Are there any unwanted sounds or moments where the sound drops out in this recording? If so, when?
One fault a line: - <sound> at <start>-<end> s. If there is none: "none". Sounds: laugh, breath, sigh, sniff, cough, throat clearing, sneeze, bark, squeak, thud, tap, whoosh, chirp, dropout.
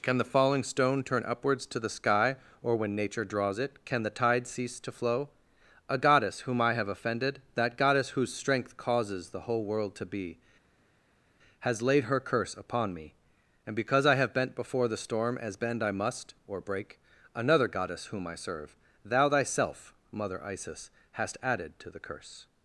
none